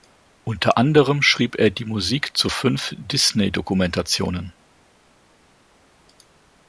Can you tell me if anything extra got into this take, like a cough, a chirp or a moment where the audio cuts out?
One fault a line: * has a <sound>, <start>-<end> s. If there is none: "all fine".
all fine